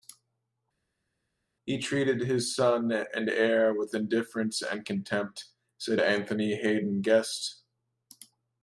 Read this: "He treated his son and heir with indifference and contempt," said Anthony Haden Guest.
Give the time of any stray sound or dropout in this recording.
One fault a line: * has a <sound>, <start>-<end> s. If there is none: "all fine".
all fine